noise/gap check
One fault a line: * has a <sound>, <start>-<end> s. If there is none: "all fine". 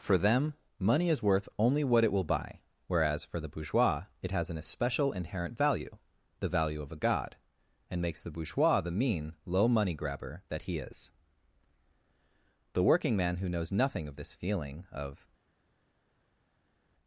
all fine